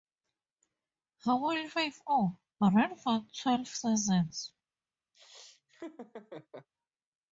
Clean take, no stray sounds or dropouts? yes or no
no